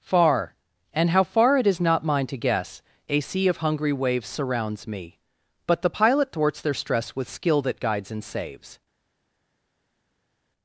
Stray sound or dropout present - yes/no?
no